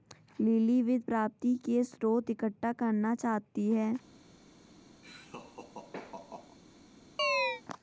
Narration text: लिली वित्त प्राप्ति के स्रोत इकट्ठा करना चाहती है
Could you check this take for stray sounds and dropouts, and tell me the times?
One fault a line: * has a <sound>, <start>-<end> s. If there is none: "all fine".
* has a laugh, 5.0-6.6 s
* has a chirp, 7.2-7.6 s